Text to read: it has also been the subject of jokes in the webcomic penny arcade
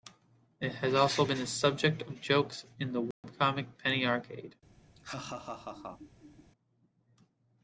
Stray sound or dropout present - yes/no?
yes